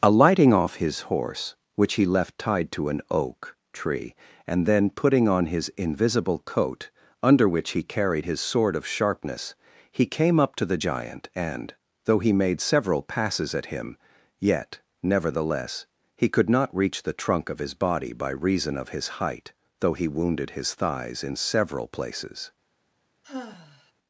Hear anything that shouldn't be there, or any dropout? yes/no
yes